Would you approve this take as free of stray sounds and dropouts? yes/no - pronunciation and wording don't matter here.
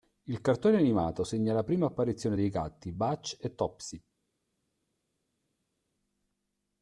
yes